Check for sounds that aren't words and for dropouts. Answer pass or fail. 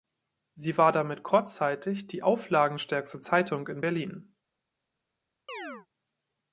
fail